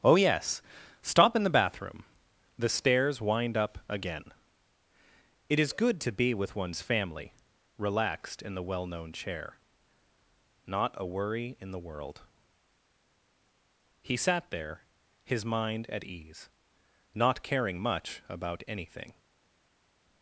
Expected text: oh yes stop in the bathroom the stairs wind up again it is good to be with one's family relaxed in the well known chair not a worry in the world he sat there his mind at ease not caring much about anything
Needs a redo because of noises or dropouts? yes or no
no